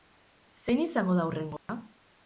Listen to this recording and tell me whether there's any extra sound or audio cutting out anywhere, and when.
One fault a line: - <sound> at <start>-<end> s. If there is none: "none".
- dropout at 1.6-1.7 s